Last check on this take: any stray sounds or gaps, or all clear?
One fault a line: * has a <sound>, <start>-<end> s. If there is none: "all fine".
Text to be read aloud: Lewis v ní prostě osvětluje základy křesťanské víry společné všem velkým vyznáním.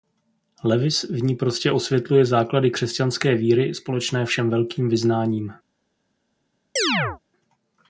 * has a chirp, 6.8-7.2 s